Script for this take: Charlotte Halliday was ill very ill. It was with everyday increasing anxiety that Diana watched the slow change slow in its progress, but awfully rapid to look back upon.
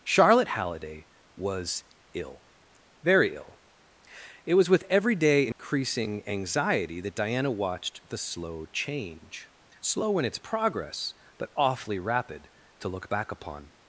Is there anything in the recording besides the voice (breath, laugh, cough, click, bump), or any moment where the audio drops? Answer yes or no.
yes